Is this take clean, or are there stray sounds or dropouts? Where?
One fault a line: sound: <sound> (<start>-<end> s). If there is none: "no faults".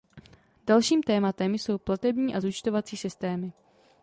no faults